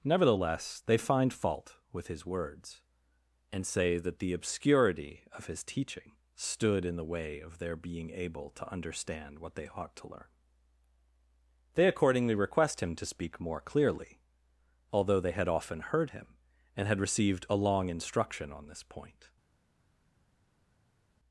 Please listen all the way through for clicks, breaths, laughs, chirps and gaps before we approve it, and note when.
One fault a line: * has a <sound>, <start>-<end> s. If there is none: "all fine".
all fine